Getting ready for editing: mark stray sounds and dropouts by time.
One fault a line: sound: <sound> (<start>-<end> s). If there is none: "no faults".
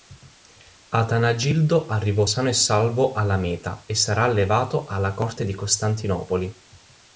no faults